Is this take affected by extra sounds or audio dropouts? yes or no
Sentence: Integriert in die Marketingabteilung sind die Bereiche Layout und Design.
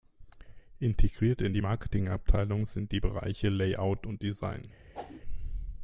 yes